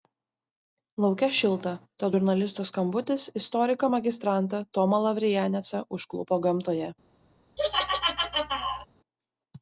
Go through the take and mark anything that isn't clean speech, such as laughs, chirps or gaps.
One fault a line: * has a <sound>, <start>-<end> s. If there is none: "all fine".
* has a laugh, 7.6-8.9 s